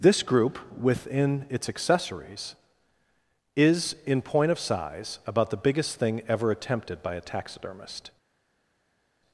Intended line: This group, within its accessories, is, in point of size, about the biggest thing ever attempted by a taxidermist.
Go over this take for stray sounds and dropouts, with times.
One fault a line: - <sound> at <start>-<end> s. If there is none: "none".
none